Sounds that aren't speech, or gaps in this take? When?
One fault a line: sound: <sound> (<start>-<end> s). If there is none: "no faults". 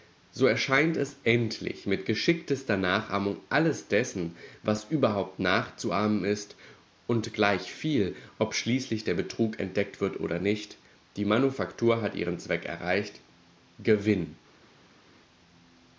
no faults